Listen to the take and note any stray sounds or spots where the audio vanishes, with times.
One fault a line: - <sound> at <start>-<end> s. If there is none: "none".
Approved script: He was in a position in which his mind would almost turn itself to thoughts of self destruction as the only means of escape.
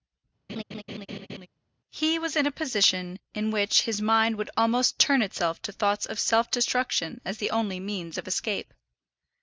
- laugh at 0.5-1.5 s